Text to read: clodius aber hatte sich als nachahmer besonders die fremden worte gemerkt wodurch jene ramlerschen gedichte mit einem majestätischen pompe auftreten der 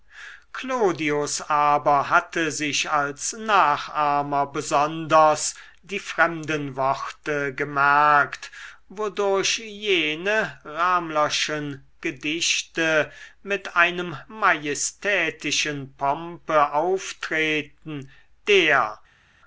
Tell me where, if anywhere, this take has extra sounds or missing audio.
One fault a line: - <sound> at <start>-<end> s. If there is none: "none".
none